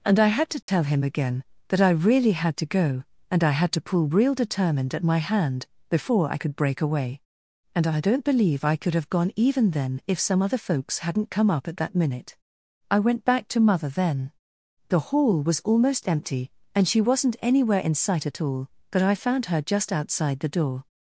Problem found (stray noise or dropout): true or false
true